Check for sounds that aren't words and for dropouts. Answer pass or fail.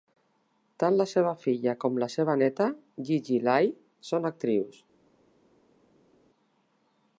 pass